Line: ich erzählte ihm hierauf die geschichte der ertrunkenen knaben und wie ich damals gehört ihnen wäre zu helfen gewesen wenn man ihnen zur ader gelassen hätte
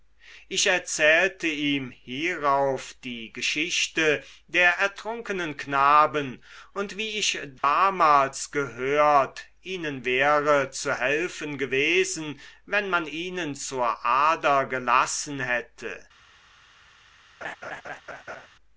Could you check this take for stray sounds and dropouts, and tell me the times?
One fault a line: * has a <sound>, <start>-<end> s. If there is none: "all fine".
* has a dropout, 7.6-7.6 s
* has a laugh, 17.4-18.5 s